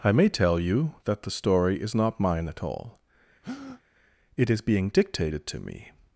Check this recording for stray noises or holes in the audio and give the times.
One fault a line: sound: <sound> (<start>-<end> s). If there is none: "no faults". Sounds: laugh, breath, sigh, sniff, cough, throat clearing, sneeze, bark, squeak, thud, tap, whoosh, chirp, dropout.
sound: breath (3.4-3.8 s)